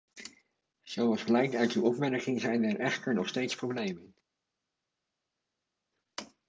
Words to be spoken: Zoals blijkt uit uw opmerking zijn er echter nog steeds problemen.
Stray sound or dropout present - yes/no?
no